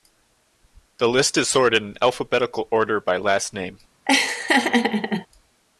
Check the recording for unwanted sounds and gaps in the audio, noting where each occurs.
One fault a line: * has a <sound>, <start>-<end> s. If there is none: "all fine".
* has a laugh, 4.1-5.3 s